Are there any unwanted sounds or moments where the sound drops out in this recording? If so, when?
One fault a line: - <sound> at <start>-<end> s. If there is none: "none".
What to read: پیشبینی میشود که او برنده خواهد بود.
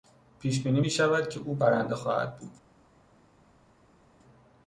none